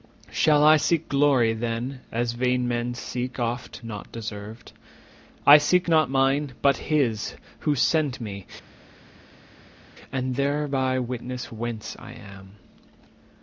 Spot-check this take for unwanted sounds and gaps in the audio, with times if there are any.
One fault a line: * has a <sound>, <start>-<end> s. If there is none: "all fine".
all fine